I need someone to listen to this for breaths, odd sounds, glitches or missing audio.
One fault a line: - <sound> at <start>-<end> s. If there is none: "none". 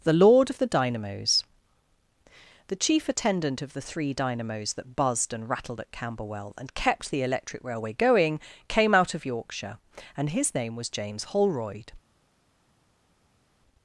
none